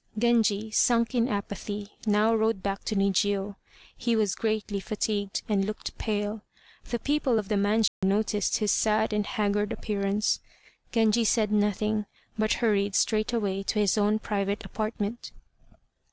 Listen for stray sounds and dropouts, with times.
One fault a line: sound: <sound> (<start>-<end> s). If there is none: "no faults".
sound: dropout (7.9-8.0 s)